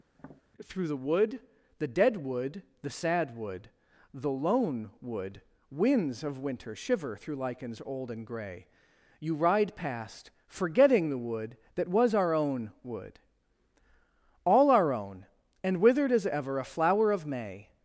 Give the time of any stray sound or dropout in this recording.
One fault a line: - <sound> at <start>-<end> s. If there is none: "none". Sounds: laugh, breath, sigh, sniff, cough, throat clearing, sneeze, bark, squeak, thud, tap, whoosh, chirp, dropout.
- tap at 0.1-0.4 s